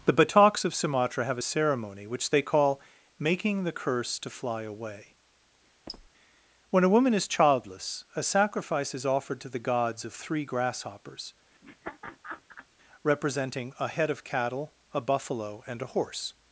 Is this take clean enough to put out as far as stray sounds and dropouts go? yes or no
no